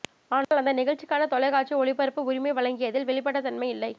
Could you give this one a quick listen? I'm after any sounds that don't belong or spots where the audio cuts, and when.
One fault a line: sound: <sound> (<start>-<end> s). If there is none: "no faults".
sound: dropout (0.4-0.5 s)